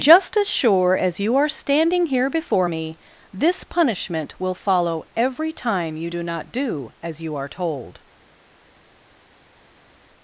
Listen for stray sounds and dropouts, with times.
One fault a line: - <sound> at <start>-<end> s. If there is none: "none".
none